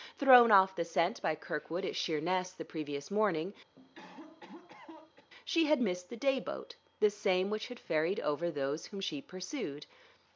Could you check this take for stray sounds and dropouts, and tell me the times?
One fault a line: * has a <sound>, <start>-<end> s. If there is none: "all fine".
* has a cough, 3.8-5.3 s